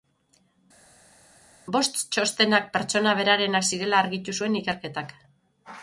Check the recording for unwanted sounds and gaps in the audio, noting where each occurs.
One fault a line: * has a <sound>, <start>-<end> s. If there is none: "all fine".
all fine